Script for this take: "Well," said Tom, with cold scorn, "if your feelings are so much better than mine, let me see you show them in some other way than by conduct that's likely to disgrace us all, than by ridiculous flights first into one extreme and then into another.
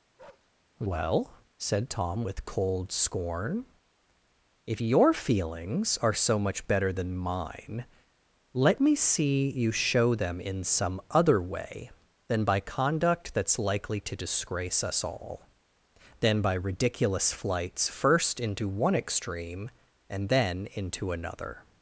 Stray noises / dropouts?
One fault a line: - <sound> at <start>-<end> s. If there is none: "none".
- bark at 0.2-0.5 s